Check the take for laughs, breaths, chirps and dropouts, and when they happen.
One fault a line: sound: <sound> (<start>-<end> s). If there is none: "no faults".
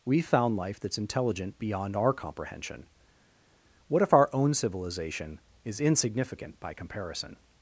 no faults